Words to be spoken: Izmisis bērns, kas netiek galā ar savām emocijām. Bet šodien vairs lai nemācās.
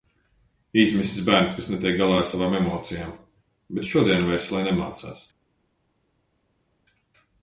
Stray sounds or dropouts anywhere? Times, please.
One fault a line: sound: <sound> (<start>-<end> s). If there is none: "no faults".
no faults